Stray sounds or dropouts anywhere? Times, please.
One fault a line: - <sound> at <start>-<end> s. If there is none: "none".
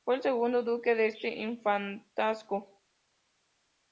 none